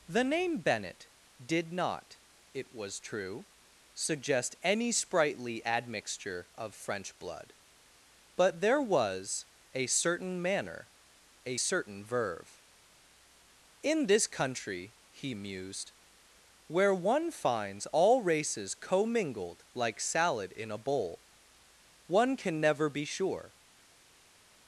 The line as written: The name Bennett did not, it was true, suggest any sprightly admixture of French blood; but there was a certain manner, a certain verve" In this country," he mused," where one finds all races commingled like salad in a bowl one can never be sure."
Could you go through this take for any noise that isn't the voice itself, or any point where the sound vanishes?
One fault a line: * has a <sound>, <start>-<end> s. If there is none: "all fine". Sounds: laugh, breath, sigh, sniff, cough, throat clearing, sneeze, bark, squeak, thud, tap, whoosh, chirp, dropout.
all fine